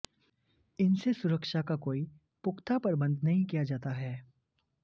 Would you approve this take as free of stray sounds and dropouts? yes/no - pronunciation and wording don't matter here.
yes